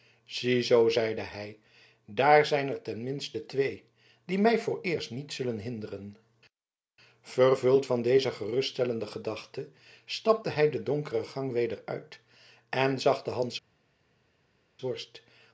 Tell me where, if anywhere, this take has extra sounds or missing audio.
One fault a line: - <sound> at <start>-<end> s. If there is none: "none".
none